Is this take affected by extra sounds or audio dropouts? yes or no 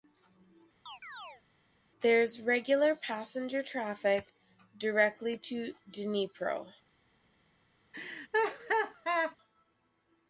yes